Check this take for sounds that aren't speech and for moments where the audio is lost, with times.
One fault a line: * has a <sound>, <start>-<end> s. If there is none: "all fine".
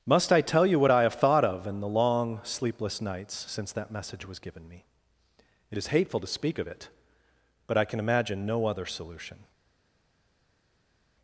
all fine